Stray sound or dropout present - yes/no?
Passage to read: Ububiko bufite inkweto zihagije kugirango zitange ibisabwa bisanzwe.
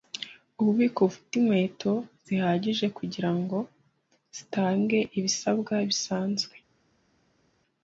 no